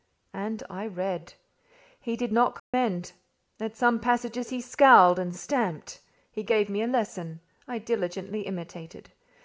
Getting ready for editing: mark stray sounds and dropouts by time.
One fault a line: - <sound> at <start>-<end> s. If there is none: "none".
- dropout at 2.6-2.7 s